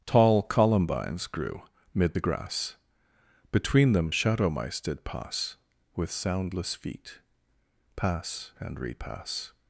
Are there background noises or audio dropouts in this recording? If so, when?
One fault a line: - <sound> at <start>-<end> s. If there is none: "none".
none